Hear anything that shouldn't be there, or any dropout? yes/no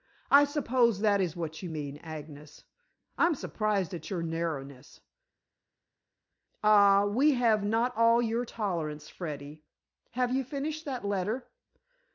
no